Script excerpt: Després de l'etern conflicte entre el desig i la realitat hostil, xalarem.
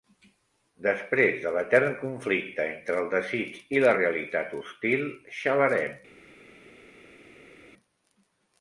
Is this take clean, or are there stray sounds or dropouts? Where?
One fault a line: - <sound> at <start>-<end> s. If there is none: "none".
none